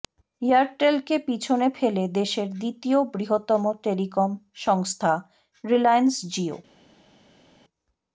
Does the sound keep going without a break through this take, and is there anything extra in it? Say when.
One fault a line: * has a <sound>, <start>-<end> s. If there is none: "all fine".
all fine